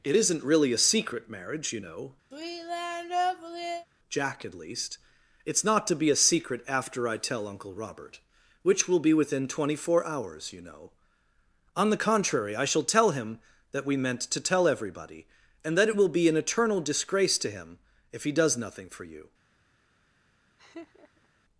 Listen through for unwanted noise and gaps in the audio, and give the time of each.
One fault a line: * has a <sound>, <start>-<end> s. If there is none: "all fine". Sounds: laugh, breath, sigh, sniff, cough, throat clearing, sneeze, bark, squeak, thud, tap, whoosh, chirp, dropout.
* has a sigh, 2.3-3.9 s
* has a laugh, 20.6-21.3 s